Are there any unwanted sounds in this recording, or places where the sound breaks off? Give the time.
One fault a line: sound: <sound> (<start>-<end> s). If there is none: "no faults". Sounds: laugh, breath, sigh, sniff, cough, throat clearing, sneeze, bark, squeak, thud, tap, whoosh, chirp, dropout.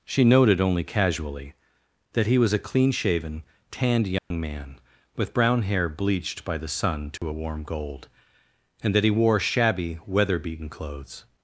sound: dropout (4.2-4.3 s)
sound: dropout (7.2-7.2 s)